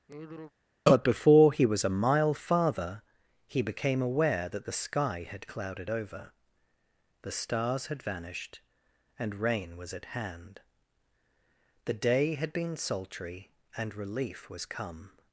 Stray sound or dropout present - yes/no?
yes